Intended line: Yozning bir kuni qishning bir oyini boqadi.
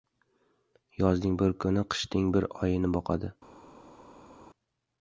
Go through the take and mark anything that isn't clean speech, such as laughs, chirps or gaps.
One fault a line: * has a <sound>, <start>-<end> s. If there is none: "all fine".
all fine